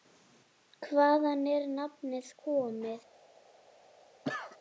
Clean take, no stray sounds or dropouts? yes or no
no